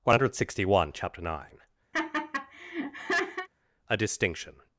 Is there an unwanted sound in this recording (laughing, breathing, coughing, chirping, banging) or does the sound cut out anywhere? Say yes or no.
yes